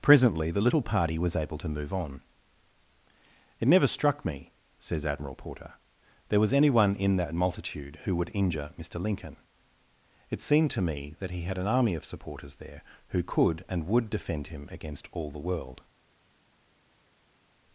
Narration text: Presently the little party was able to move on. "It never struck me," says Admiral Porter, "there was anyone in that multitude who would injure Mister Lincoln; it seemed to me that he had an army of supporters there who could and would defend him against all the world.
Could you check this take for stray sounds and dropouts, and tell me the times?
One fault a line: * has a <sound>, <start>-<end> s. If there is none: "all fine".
all fine